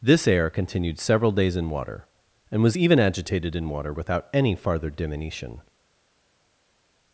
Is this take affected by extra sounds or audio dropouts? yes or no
no